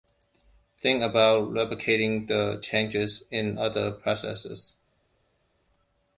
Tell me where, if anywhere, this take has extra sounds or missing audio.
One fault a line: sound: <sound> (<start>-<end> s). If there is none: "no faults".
no faults